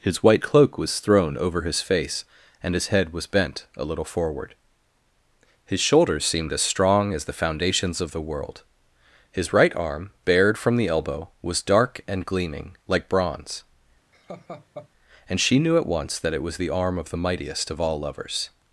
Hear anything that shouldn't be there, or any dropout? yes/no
yes